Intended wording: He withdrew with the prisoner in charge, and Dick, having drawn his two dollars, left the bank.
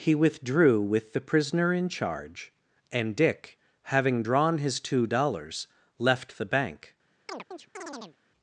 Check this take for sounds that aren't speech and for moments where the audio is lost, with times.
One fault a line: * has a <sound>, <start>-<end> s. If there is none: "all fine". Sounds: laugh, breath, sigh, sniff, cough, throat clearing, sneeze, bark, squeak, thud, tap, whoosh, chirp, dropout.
* has a chirp, 7.3-8.2 s